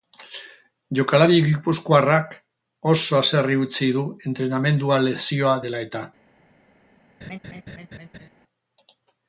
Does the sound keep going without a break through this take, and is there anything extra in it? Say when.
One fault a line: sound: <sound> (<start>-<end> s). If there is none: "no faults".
sound: laugh (7.2-8.3 s)